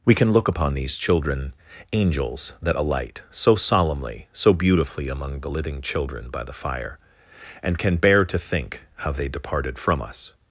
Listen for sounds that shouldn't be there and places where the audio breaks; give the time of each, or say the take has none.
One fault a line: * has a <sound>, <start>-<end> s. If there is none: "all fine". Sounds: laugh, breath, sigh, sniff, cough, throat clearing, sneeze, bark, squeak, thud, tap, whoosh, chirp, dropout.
all fine